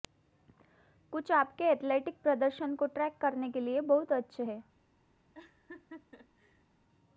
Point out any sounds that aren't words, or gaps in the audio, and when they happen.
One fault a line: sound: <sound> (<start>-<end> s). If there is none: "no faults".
sound: laugh (5.3-6.6 s)